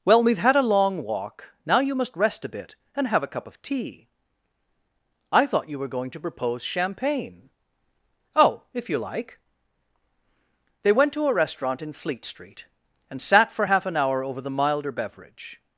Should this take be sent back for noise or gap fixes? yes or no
no